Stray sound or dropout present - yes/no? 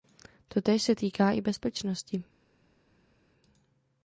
no